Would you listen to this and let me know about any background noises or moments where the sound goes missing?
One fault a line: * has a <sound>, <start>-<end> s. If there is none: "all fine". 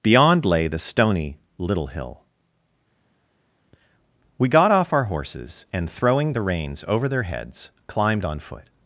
all fine